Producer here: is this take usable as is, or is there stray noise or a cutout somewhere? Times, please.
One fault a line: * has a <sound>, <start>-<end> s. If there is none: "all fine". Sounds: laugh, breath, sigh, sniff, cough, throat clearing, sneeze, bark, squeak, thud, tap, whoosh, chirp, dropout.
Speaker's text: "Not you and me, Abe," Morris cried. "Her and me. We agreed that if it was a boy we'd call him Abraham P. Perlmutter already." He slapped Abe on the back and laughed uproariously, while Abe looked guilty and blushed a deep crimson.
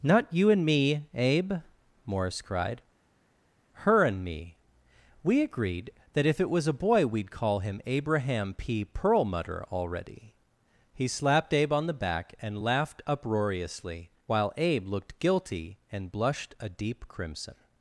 all fine